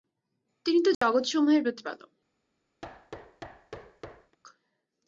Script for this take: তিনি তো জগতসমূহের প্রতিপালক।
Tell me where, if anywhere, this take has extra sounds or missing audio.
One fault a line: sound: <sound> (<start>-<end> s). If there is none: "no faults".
sound: dropout (0.9-1.0 s)
sound: thud (2.8-4.4 s)